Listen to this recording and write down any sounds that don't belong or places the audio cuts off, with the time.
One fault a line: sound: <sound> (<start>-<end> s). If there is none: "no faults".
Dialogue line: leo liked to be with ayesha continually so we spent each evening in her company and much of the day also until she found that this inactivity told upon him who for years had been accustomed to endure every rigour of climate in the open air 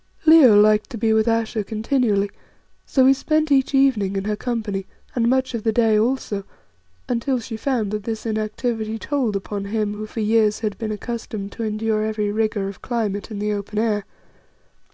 no faults